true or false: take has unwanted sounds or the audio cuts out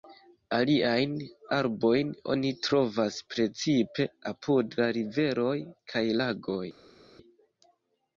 false